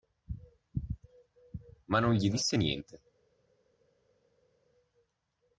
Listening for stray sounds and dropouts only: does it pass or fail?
pass